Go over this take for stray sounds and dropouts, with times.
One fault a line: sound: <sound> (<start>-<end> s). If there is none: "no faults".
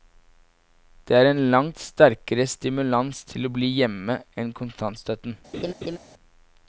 sound: laugh (5.5-6.0 s)